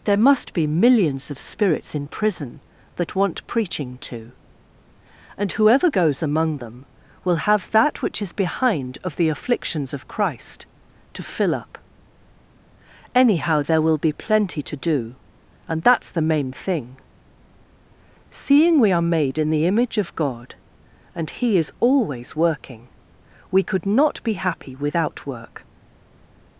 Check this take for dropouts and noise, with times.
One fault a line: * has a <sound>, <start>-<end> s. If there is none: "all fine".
all fine